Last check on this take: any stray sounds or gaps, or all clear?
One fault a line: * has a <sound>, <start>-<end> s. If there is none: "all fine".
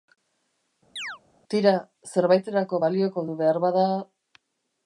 * has a chirp, 1.0-1.2 s